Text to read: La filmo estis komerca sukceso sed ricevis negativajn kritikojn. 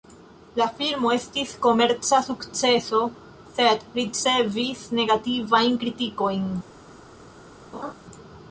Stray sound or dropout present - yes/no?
yes